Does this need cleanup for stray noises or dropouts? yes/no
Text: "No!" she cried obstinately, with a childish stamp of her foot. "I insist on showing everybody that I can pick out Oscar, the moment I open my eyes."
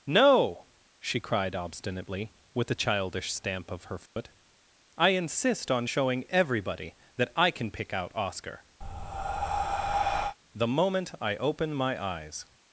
yes